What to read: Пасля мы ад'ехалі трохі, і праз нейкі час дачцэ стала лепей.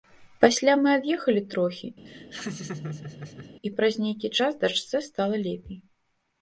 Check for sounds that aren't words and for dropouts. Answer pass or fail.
fail